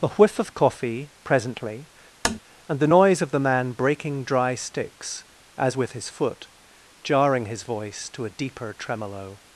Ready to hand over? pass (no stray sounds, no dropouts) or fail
fail